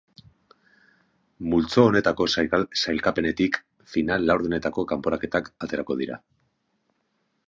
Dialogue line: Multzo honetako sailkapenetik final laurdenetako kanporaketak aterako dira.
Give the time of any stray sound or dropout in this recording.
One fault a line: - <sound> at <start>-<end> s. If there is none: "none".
none